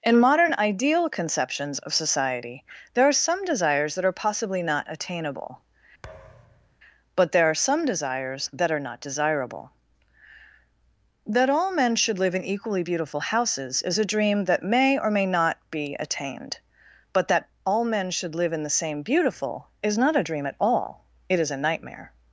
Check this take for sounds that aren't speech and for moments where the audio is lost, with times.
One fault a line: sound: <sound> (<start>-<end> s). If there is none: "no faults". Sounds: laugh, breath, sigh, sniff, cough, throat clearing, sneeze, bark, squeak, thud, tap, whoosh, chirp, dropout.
sound: thud (6.0-6.7 s)